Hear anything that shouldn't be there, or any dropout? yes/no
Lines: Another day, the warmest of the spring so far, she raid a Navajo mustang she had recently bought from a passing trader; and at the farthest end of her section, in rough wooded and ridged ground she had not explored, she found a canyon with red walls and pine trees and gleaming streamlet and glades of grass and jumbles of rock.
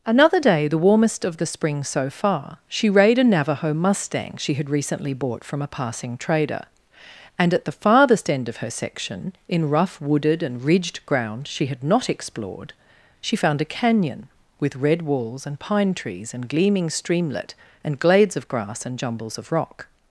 no